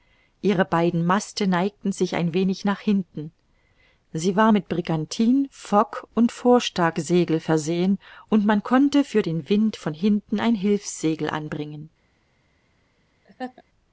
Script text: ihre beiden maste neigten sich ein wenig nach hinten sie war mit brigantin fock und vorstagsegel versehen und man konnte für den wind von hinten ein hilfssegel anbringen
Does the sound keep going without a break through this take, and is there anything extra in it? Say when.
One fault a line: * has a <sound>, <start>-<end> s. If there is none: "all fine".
* has a laugh, 13.2-13.6 s